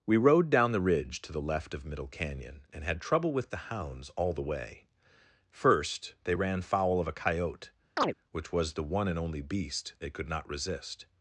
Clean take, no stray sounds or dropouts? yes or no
no